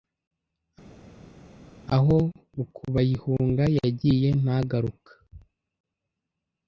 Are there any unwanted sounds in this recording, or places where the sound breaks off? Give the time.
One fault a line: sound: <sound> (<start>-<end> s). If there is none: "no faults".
no faults